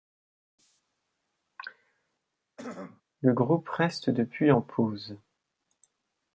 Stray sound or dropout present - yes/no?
yes